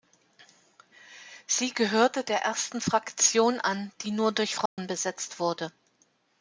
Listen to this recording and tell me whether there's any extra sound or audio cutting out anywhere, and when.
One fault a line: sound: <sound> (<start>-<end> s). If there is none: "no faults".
sound: dropout (4.7-4.8 s)